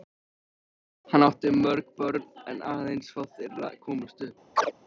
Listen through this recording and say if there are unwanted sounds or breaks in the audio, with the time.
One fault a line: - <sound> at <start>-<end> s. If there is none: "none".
- chirp at 4.6-4.7 s